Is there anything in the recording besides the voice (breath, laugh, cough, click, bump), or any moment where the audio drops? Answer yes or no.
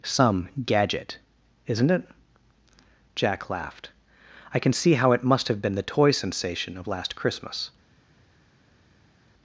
no